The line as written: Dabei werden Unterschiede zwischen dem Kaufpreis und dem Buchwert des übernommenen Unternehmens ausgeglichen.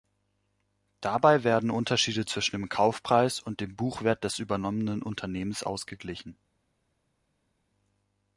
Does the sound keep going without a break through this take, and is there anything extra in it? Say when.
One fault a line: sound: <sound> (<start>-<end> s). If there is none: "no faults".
no faults